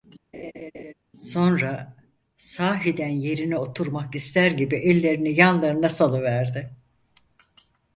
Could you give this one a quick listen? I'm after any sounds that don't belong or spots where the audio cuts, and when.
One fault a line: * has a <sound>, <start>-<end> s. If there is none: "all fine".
* has a laugh, 0.3-0.9 s